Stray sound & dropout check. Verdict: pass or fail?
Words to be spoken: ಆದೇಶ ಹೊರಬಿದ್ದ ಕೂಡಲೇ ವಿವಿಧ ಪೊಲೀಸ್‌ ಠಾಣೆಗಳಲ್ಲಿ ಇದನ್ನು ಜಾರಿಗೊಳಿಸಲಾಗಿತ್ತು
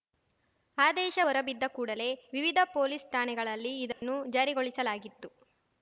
fail